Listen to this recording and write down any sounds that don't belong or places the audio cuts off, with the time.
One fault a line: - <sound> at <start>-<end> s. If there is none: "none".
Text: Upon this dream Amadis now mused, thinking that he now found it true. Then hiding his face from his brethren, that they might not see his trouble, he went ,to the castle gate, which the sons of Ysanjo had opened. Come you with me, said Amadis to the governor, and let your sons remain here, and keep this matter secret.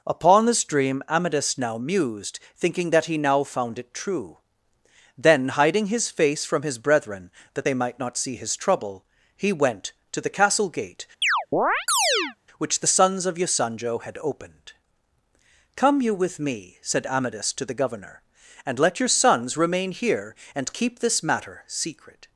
- chirp at 11.2-12.4 s